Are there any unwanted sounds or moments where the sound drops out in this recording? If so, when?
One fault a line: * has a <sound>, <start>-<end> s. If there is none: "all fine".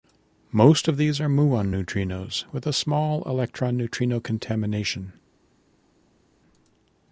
all fine